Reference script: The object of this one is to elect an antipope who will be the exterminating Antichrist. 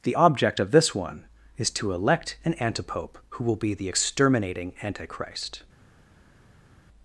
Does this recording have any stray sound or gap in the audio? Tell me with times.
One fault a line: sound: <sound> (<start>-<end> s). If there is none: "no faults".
no faults